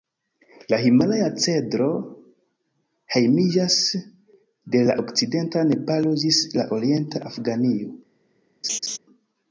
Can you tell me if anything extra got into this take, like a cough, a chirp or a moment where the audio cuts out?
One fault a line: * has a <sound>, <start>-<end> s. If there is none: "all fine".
* has a laugh, 8.6-9.0 s